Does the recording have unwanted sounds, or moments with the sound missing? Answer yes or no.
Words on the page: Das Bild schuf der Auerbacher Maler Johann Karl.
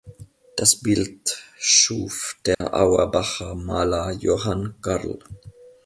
yes